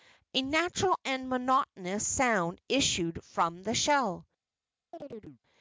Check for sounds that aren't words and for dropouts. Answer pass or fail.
fail